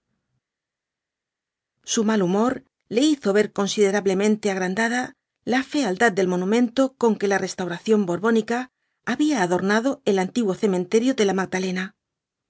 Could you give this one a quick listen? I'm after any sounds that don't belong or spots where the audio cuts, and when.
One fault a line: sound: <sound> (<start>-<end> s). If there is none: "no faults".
no faults